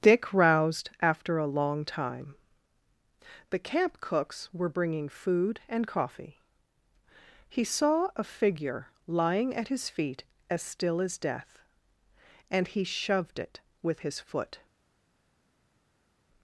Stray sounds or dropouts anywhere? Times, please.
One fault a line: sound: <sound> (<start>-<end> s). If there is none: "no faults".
no faults